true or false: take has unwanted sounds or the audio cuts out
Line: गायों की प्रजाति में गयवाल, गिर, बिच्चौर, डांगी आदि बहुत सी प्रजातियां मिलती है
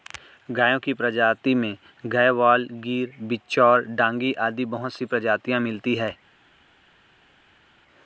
false